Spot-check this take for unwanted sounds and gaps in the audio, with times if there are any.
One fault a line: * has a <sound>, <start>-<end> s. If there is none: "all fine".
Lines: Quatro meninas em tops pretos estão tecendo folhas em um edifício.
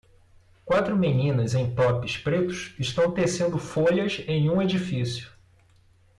all fine